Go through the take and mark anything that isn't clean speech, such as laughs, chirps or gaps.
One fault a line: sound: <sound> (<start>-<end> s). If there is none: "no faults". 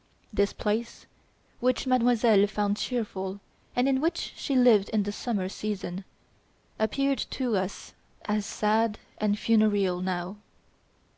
no faults